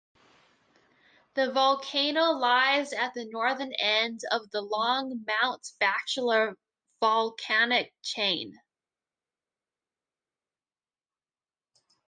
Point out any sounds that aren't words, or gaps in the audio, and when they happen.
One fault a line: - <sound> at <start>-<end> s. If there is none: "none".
none